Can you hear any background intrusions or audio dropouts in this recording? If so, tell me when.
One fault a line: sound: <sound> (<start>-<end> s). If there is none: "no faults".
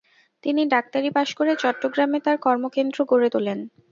no faults